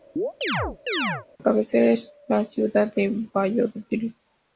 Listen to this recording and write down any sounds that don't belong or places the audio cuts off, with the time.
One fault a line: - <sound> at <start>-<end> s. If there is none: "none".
- chirp at 0.2-1.3 s